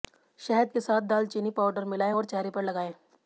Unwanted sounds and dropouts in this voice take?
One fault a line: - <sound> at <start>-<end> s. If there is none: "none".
none